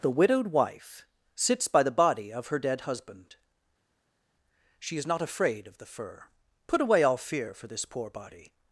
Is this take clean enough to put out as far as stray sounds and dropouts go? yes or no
yes